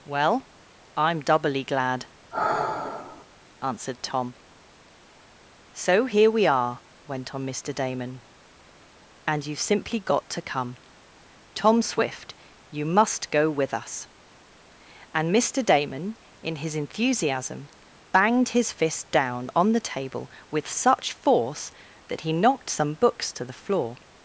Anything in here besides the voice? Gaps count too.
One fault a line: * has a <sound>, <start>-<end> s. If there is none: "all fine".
* has a sigh, 2.3-3.3 s